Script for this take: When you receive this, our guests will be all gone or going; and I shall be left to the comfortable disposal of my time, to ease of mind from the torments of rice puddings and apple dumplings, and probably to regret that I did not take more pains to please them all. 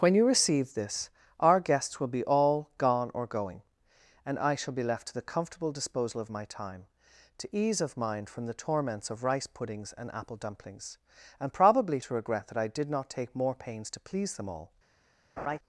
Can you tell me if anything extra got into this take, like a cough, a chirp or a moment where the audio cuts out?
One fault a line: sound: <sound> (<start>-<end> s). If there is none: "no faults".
sound: laugh (15.4-15.6 s)